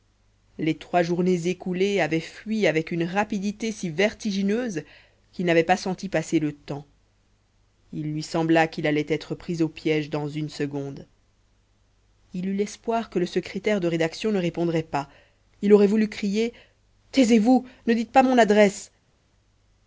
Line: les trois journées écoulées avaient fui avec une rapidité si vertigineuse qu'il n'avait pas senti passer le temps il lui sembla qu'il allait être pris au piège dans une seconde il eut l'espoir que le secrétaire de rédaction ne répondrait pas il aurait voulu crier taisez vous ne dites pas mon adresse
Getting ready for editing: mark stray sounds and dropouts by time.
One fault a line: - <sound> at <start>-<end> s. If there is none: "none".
none